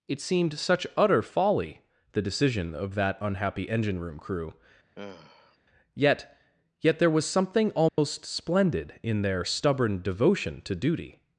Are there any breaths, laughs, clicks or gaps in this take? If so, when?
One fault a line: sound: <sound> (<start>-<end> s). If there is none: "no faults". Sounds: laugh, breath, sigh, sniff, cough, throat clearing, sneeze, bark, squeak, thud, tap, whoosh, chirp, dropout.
sound: sigh (5.0-5.6 s)
sound: dropout (7.9-8.0 s)